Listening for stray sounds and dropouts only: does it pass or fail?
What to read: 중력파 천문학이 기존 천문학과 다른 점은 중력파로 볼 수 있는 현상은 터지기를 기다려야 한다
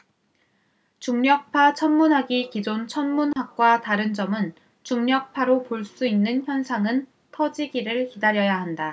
fail